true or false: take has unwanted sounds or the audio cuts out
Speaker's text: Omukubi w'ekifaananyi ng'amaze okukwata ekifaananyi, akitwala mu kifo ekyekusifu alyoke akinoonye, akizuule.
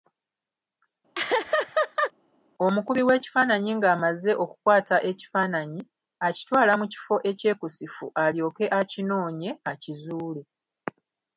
true